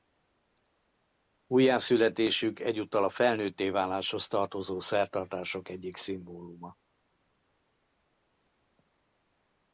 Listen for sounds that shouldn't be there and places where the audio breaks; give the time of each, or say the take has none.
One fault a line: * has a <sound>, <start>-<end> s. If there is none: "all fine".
all fine